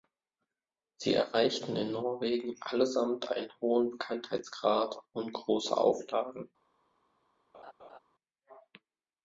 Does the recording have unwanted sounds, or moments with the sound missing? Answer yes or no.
yes